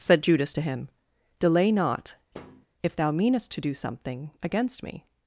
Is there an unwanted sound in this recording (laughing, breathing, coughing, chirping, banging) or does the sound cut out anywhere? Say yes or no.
yes